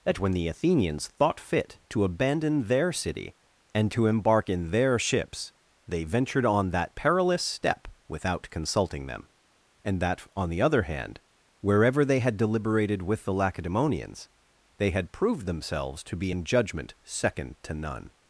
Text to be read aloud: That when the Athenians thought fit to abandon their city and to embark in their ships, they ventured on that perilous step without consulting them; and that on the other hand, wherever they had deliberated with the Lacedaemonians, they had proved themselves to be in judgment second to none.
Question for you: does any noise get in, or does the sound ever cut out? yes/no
no